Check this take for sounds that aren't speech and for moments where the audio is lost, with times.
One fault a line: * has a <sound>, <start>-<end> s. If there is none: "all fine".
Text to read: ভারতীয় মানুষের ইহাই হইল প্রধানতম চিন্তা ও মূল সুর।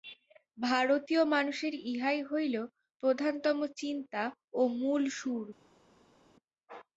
all fine